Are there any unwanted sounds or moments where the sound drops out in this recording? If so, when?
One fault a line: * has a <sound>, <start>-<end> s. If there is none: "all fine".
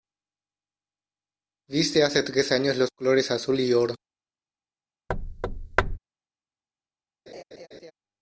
* has a thud, 5.1-6.0 s
* has a laugh, 7.3-7.9 s